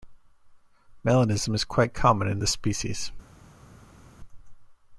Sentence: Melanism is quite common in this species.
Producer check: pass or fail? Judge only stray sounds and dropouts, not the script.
pass